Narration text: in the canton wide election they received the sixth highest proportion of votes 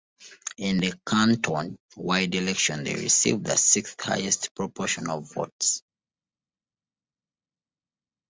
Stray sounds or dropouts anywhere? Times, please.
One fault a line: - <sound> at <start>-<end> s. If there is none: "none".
none